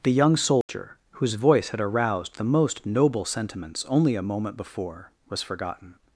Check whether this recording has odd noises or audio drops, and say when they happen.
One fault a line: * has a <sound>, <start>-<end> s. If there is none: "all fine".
* has a dropout, 0.6-0.7 s